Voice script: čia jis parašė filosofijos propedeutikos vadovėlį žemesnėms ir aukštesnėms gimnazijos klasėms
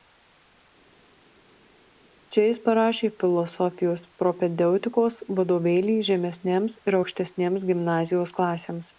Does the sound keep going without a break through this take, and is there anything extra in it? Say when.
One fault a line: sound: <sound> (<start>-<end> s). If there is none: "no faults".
no faults